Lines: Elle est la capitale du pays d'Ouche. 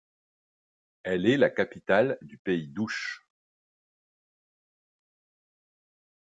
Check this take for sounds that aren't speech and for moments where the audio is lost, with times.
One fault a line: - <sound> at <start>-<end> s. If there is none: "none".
none